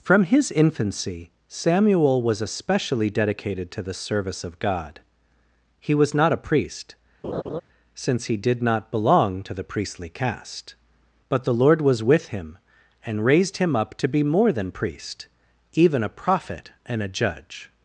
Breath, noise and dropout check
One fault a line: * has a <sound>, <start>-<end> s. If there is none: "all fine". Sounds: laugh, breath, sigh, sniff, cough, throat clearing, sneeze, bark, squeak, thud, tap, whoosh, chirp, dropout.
* has a laugh, 7.2-7.6 s